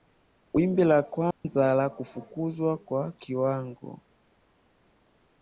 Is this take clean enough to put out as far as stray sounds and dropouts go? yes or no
no